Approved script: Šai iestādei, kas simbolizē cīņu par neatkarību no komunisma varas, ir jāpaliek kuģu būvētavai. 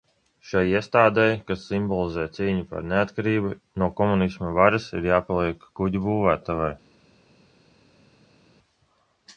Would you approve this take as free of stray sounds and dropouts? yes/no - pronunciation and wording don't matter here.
yes